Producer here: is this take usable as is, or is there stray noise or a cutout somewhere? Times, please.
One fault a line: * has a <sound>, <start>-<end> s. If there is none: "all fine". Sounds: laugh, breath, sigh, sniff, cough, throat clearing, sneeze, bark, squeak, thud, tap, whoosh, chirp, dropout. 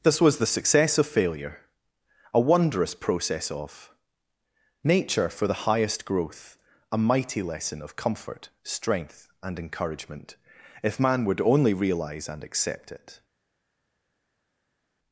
all fine